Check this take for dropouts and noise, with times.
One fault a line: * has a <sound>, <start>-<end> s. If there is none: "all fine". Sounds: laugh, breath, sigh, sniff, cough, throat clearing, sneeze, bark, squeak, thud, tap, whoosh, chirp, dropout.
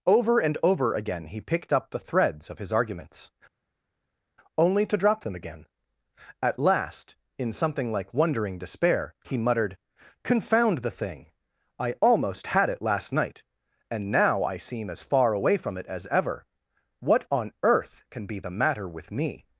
all fine